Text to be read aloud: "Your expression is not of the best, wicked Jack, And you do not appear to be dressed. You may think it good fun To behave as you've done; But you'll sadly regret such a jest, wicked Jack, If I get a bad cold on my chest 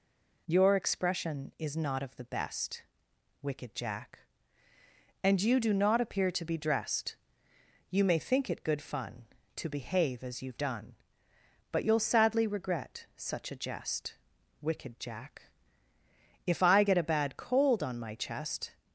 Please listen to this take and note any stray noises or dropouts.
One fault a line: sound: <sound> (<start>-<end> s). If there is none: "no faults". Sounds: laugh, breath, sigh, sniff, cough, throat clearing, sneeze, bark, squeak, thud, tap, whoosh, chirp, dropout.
no faults